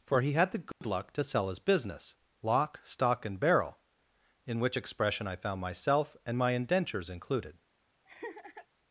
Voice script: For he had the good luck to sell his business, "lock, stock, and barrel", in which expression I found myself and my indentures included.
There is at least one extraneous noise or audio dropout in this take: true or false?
true